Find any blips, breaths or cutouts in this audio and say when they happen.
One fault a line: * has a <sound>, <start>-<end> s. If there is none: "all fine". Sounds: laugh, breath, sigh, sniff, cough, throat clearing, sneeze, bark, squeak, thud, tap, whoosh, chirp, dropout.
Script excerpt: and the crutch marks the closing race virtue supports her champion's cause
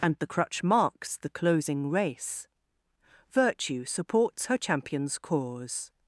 all fine